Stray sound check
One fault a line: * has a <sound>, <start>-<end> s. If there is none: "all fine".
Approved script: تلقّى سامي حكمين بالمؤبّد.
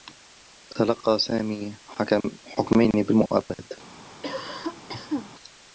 * has a cough, 4.2-5.3 s